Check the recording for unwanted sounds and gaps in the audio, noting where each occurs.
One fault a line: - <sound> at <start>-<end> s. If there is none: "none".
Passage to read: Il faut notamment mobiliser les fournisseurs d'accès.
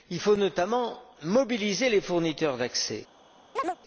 - chirp at 3.6-3.8 s